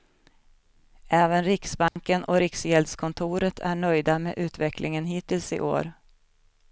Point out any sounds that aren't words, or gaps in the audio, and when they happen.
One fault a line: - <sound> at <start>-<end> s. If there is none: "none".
- dropout at 1.9-2.0 s